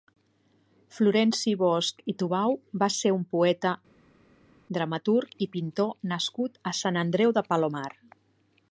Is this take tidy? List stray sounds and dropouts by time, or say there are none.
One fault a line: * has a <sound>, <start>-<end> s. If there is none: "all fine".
all fine